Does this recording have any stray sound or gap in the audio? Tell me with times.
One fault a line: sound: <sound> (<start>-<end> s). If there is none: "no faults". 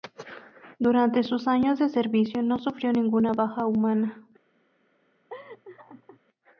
sound: laugh (5.3-6.2 s)